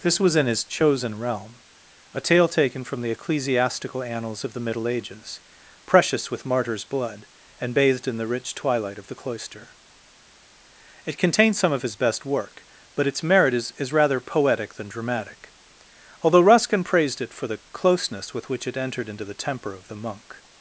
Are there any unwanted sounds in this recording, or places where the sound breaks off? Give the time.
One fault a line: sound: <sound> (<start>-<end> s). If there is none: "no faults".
no faults